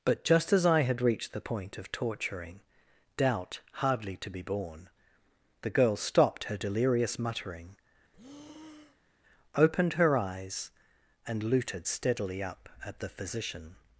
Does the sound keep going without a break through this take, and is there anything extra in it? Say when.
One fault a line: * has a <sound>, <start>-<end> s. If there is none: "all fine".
* has a breath, 8.1-9.2 s